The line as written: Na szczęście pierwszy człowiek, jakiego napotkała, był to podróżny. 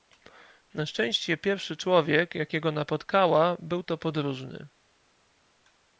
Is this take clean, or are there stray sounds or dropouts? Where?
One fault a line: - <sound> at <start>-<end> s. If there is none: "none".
none